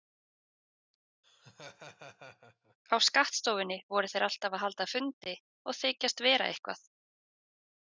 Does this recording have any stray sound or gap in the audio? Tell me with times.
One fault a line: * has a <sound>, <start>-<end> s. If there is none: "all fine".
* has a laugh, 1.2-2.8 s